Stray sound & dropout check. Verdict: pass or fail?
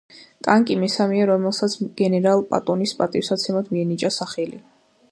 pass